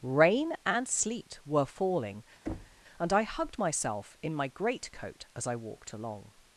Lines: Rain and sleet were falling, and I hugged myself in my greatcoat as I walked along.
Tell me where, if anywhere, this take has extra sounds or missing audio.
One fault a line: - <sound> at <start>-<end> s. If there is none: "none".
- thud at 2.5-2.8 s